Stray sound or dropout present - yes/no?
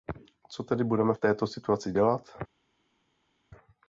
no